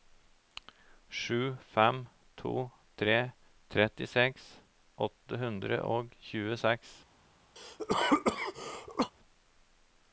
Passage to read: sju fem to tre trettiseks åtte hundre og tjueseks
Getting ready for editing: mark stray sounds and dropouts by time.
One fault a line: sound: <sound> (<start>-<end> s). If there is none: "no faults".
sound: cough (7.6-9.1 s)